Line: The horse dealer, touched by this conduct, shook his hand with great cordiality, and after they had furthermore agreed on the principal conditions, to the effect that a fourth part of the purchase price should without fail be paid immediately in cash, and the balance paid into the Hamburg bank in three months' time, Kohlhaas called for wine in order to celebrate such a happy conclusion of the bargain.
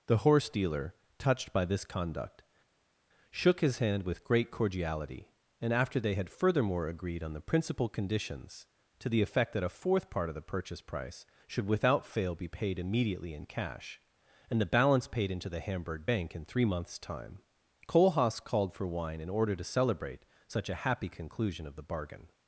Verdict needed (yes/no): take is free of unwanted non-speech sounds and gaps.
yes